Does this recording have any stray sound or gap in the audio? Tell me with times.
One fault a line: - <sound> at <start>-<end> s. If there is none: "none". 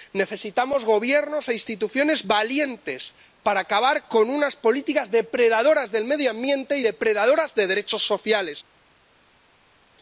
none